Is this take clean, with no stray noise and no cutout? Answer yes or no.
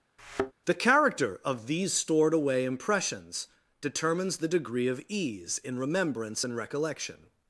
no